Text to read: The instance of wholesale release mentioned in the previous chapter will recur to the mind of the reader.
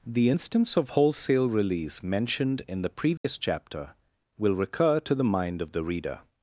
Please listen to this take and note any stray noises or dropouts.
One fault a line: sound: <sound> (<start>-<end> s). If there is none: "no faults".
sound: dropout (3.2-3.2 s)